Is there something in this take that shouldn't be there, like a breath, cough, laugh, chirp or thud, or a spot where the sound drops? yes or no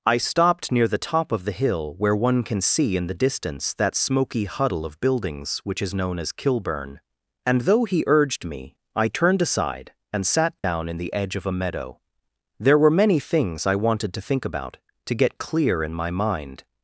yes